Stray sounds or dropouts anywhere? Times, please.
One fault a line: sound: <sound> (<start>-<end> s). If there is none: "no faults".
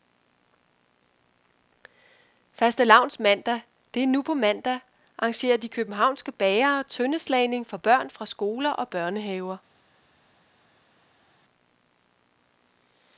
no faults